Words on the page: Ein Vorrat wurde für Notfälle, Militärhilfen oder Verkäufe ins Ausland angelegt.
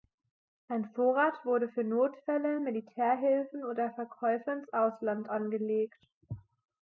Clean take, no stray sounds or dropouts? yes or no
yes